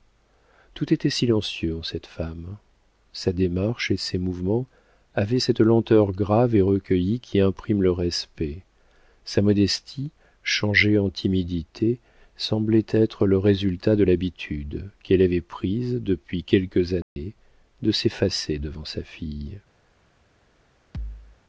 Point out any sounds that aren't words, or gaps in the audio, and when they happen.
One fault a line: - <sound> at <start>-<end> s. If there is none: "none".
- dropout at 17.0-17.2 s
- thud at 20.9-21.4 s